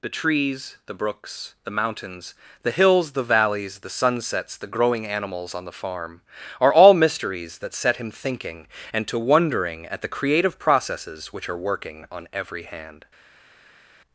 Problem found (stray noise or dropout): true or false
false